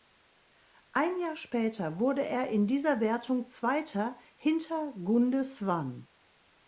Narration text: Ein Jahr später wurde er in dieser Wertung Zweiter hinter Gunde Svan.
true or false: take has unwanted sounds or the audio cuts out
false